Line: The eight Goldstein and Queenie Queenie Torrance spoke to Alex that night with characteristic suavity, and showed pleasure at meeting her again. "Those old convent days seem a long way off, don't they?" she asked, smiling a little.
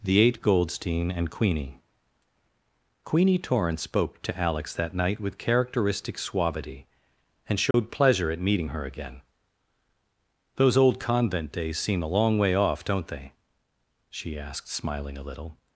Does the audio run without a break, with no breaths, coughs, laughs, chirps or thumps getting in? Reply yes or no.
no